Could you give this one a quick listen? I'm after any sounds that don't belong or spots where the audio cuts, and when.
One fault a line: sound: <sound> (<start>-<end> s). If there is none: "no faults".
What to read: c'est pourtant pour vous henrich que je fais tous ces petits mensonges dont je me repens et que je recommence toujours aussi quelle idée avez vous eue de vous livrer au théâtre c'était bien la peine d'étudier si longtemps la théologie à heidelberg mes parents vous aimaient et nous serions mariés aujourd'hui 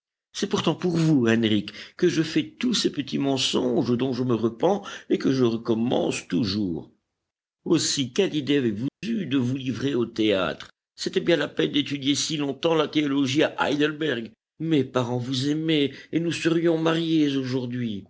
sound: dropout (8.9-9.0 s)